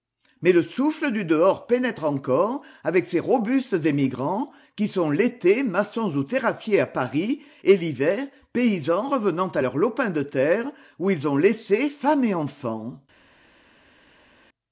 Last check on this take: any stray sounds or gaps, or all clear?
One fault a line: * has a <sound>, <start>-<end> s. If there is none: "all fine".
all fine